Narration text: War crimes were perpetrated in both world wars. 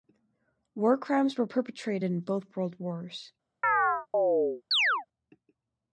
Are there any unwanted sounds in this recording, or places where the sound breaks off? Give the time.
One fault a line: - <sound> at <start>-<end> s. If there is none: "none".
- chirp at 3.6-5.1 s